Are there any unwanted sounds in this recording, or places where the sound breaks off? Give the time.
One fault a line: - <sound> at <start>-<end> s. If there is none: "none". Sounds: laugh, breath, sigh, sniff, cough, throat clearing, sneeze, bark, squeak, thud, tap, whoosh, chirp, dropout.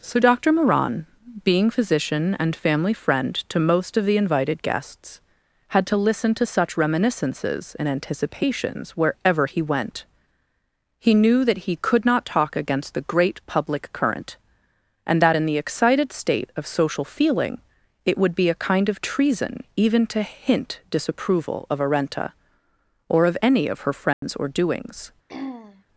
- dropout at 24.1-24.2 s
- throat clearing at 25.3-25.8 s